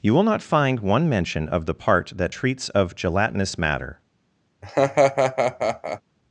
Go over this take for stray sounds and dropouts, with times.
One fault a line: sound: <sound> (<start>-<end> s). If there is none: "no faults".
sound: laugh (4.6-6.0 s)